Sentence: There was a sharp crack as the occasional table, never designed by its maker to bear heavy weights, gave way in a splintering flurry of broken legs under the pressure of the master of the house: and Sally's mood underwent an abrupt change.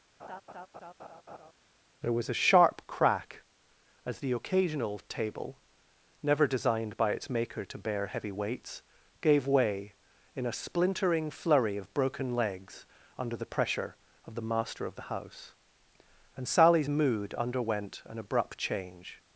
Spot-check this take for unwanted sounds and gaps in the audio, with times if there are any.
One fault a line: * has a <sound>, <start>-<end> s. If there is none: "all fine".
* has a laugh, 0.2-1.5 s